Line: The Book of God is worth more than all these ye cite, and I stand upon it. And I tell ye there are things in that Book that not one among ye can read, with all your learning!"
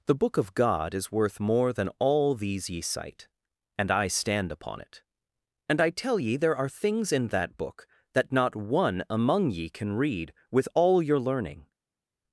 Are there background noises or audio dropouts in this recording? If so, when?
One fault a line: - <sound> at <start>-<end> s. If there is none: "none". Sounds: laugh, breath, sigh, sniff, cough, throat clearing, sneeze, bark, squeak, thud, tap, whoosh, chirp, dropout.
none